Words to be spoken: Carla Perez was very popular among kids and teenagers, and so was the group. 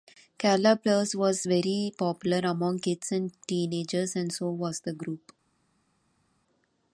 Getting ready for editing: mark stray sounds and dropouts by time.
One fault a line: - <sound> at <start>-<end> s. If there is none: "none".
none